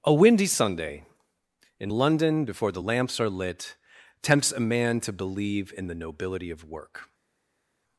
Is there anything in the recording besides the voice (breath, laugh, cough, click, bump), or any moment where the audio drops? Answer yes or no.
no